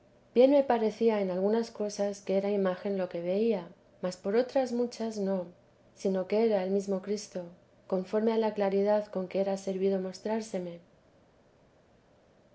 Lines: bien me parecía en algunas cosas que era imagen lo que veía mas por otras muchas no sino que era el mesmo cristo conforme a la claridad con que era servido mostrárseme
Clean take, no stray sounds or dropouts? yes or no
yes